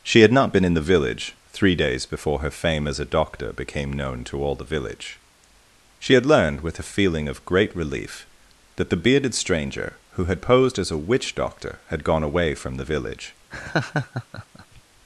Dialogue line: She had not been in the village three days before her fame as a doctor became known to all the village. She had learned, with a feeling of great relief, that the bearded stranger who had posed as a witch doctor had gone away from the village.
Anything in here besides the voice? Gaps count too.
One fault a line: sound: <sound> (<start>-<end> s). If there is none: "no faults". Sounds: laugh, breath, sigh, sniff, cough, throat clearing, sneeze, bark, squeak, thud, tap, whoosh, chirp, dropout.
sound: laugh (13.5-14.8 s)